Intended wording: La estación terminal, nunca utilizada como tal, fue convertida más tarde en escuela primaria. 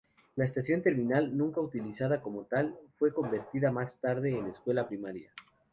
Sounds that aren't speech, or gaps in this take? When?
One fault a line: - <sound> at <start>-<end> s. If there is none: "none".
none